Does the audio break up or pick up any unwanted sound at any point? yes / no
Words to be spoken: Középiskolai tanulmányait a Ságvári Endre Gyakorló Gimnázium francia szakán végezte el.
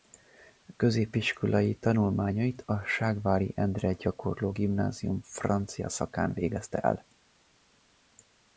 no